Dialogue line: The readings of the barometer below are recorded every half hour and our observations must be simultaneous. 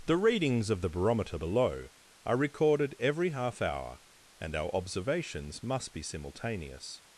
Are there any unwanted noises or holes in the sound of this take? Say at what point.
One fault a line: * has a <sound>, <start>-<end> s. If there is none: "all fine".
all fine